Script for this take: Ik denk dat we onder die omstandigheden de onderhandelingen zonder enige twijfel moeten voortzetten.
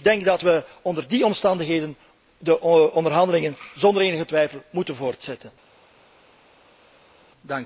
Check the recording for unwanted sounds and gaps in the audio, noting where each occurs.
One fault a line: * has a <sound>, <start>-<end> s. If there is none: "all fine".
all fine